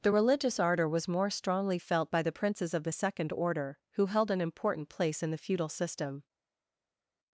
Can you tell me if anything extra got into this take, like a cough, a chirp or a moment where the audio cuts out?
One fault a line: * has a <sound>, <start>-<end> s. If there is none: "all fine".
all fine